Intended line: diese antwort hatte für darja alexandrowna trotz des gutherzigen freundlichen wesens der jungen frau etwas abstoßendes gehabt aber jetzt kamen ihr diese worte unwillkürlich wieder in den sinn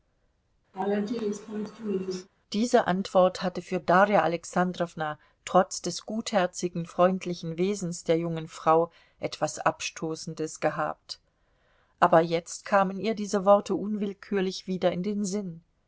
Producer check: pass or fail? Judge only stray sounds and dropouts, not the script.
fail